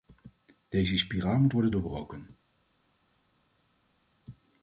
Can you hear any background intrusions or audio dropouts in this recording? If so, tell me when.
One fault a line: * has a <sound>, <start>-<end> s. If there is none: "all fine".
all fine